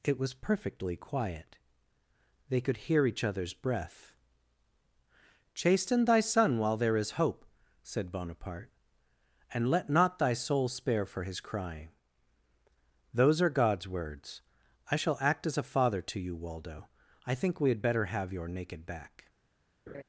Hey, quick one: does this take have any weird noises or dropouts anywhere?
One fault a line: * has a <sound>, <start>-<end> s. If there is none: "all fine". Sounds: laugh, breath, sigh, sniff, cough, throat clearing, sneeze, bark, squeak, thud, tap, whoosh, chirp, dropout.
* has a laugh, 19.9-20.0 s